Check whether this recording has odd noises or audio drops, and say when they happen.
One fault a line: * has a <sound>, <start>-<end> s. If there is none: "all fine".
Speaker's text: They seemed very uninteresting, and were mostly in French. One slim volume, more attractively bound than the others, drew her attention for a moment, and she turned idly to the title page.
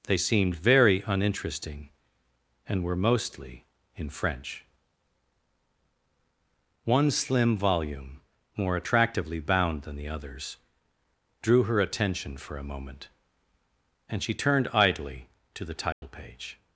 * has a dropout, 15.9-16.0 s